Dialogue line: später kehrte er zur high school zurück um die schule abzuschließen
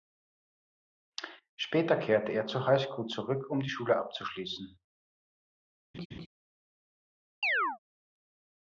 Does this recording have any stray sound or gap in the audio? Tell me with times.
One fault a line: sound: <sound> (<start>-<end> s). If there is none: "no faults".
sound: laugh (5.9-6.3 s)
sound: chirp (7.4-7.8 s)